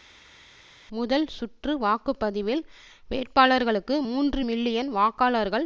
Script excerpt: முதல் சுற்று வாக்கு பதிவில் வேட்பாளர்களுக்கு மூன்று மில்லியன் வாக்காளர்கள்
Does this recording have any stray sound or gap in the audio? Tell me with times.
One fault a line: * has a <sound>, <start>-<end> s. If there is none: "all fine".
all fine